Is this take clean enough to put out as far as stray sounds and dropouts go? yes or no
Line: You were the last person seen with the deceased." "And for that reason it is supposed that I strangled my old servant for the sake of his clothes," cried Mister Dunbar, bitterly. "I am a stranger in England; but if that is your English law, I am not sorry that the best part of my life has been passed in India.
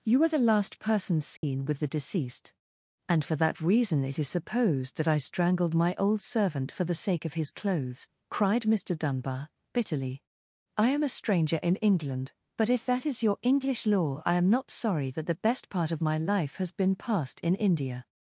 no